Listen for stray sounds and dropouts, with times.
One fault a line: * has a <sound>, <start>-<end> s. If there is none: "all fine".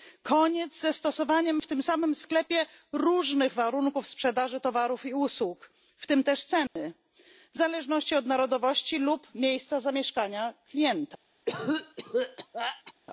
* has a dropout, 6.7-6.8 s
* has a cough, 11.5-12.9 s